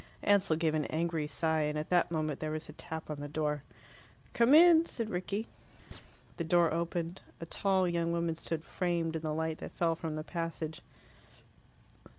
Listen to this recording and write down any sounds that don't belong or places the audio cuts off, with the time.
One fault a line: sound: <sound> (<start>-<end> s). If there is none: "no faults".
sound: chirp (5.9-6.0 s)